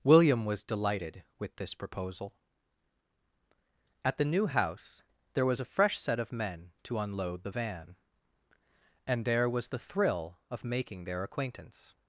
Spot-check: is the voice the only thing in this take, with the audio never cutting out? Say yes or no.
yes